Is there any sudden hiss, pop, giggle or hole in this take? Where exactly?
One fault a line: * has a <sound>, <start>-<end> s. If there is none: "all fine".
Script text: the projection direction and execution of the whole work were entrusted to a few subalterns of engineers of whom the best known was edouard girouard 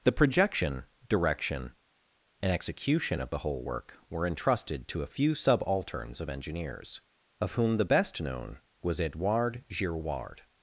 all fine